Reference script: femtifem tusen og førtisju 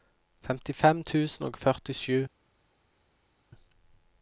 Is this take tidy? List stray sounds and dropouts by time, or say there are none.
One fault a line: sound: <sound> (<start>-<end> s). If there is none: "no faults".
no faults